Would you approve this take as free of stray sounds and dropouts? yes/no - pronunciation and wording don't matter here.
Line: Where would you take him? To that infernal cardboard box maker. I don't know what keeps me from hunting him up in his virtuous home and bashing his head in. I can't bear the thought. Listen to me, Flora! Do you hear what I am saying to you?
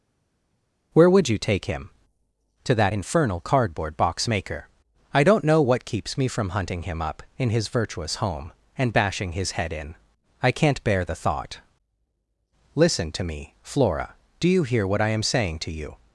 yes